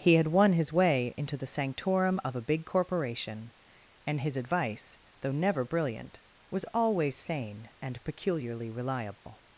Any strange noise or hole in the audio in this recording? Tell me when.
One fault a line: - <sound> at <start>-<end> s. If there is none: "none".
- dropout at 9.1-9.3 s